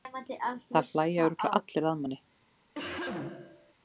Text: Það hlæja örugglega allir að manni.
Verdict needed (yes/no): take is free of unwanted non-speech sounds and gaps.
no